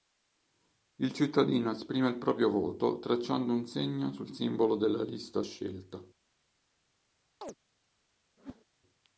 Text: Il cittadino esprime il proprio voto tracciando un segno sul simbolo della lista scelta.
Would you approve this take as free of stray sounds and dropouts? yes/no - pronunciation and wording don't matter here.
no